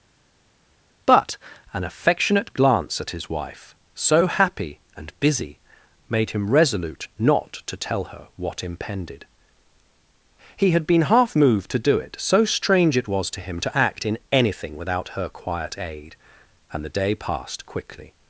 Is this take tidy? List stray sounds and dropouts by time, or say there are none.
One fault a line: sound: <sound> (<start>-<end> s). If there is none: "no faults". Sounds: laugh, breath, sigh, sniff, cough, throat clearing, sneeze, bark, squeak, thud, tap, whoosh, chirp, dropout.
no faults